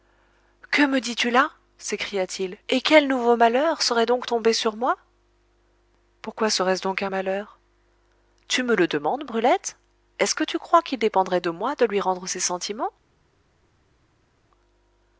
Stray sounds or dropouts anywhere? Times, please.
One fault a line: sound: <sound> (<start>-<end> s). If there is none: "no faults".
no faults